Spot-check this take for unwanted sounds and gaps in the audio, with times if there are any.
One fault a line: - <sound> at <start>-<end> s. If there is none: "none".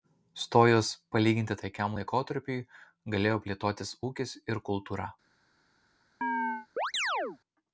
- chirp at 6.2-7.4 s